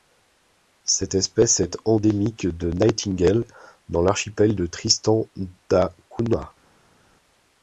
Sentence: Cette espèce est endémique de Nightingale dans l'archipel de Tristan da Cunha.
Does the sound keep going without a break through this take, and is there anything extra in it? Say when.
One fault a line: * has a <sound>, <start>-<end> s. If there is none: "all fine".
all fine